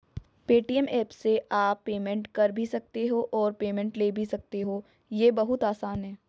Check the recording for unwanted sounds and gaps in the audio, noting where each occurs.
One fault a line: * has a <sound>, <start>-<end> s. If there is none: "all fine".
all fine